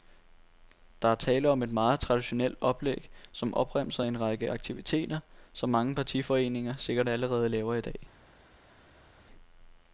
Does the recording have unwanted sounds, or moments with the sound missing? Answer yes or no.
no